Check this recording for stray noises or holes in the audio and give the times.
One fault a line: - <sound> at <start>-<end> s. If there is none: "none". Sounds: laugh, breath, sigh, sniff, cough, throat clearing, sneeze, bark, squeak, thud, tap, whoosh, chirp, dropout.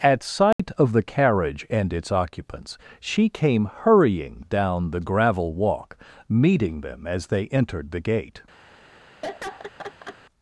- dropout at 0.5-0.6 s
- laugh at 9.2-10.2 s